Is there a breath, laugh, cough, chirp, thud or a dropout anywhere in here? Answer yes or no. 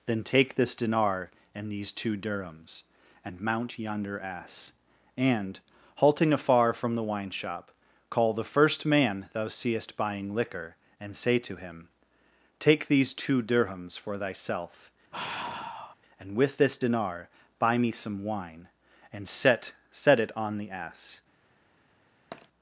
yes